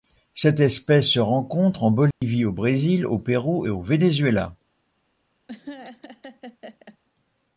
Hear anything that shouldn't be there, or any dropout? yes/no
yes